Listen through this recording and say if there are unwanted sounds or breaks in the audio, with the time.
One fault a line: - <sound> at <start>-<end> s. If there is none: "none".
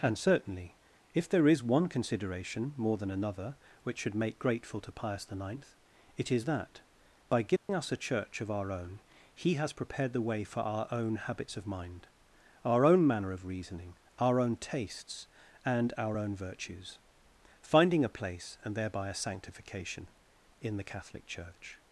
- dropout at 7.6-7.7 s